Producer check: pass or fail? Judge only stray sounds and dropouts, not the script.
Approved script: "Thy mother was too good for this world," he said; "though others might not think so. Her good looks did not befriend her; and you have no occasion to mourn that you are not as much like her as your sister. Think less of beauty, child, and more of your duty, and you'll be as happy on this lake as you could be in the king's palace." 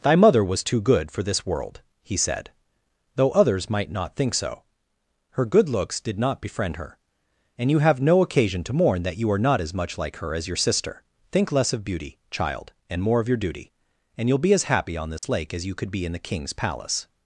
fail